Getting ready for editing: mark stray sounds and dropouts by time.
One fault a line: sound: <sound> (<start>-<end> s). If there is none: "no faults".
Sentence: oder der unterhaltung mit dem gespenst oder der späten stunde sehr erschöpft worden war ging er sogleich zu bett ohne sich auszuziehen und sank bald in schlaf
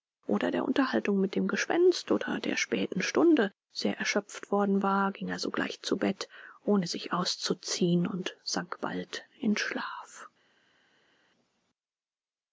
no faults